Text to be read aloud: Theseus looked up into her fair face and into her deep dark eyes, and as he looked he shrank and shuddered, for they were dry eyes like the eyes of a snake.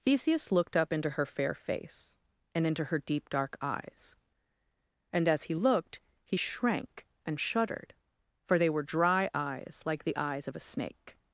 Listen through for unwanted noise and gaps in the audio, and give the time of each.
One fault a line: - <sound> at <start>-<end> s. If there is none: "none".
none